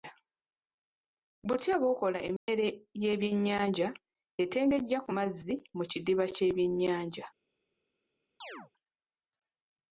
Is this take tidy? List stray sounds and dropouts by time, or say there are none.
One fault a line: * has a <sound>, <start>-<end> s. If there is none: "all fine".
* has a dropout, 2.4-2.5 s
* has a chirp, 8.4-8.7 s